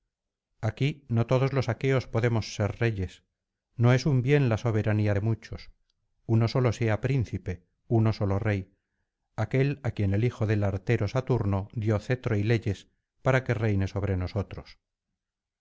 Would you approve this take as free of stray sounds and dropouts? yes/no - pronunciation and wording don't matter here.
yes